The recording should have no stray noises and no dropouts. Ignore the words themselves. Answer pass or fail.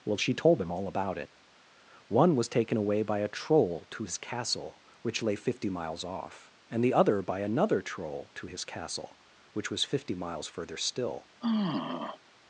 fail